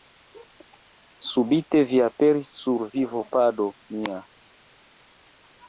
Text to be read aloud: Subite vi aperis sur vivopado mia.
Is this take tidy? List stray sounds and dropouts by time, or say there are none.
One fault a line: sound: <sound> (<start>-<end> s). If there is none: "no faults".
no faults